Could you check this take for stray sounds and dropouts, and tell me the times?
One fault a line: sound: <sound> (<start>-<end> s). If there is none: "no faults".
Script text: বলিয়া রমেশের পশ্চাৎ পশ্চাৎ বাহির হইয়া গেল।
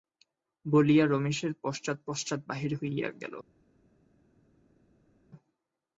no faults